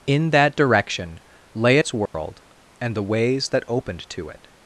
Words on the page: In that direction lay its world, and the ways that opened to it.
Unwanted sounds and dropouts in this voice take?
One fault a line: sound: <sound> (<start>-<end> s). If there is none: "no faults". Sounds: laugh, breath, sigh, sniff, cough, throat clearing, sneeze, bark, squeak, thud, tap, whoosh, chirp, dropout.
sound: dropout (2.1-2.1 s)